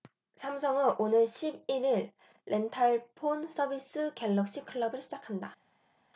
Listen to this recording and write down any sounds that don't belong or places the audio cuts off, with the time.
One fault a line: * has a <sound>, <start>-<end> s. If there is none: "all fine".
all fine